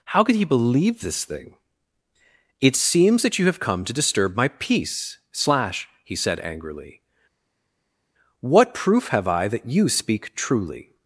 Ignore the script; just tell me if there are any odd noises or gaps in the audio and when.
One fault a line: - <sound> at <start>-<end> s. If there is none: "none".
none